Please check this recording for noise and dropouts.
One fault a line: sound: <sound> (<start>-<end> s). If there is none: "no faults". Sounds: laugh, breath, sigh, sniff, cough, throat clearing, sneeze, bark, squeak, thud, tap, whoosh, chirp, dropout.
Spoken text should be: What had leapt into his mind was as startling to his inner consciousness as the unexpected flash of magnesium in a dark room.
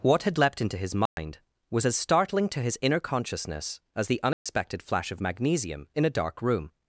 sound: dropout (1.1-1.2 s)
sound: dropout (4.3-4.5 s)